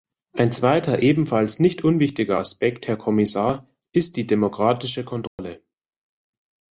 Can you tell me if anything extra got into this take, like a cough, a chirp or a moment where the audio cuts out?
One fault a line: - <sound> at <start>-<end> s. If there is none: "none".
- dropout at 5.3-5.4 s